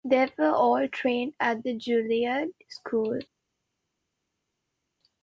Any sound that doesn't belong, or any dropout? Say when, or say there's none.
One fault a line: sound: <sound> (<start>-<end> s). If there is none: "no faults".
no faults